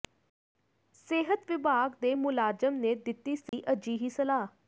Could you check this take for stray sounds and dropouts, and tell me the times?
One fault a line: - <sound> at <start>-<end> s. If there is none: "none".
- dropout at 3.5-3.5 s